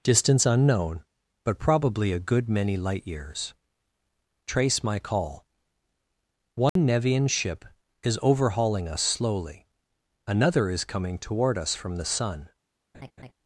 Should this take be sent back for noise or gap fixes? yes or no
yes